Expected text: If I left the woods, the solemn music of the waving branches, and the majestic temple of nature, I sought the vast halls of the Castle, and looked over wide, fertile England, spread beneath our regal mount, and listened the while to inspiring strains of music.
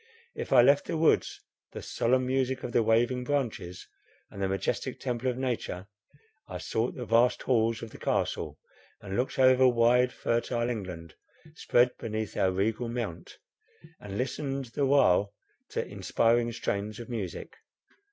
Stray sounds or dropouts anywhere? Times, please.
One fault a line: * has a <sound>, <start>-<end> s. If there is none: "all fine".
all fine